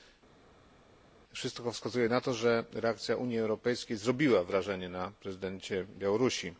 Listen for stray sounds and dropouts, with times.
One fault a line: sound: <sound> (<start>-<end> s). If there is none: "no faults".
no faults